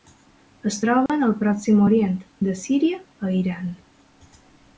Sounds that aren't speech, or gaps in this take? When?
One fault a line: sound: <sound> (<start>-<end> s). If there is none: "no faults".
sound: dropout (1.1-1.1 s)